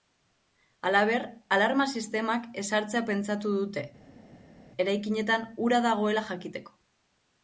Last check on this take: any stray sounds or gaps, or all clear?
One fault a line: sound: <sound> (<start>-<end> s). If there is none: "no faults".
no faults